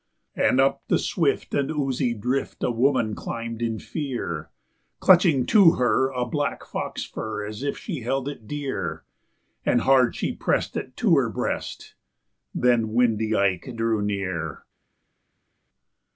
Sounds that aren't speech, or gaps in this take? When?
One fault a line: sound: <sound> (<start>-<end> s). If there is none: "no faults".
no faults